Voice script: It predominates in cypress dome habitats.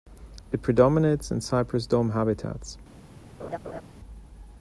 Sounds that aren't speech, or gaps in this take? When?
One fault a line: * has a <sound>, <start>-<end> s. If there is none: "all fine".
* has a laugh, 3.4-3.8 s